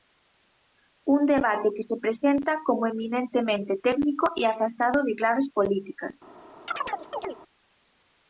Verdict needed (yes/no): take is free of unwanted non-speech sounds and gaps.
no